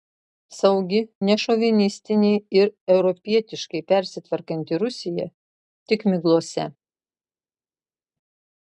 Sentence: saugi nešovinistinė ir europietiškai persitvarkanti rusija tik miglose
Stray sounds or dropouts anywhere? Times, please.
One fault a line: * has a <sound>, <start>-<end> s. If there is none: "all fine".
all fine